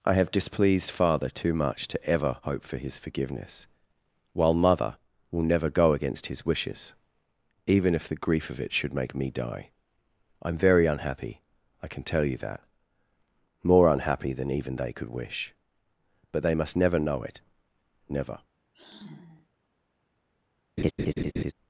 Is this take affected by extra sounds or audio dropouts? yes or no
yes